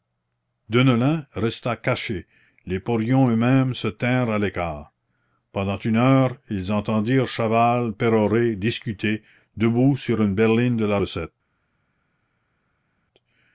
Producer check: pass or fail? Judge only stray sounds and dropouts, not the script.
pass